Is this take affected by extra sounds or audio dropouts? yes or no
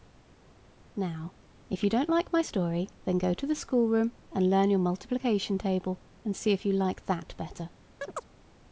yes